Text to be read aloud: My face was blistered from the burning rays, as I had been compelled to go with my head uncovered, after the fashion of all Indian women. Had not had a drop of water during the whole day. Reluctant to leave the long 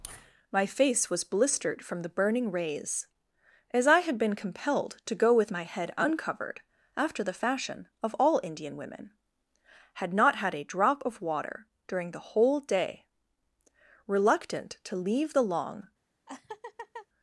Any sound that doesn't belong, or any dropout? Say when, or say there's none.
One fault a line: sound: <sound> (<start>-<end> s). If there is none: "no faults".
sound: laugh (16.3-17.1 s)